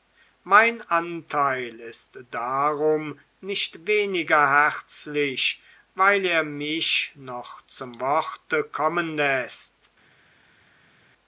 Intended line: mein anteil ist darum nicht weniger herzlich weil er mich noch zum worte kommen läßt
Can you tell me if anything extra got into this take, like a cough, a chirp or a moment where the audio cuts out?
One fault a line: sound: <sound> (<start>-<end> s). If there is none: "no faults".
no faults